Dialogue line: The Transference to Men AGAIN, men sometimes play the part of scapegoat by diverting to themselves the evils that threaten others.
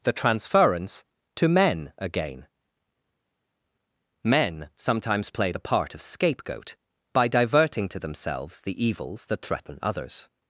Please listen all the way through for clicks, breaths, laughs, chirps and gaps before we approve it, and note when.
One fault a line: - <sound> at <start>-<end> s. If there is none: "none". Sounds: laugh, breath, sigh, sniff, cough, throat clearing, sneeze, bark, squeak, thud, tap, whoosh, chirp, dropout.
none